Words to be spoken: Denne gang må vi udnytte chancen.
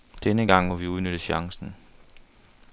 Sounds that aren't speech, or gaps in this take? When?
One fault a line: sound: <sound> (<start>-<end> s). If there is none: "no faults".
no faults